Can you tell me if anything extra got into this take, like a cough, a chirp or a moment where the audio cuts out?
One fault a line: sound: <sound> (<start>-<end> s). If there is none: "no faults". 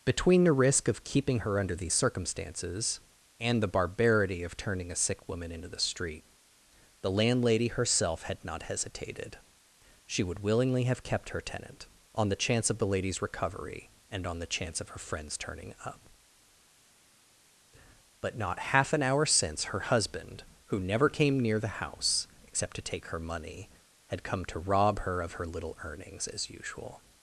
no faults